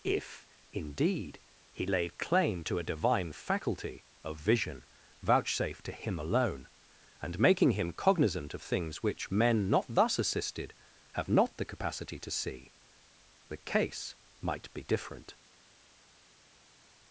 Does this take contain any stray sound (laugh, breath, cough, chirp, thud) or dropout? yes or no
no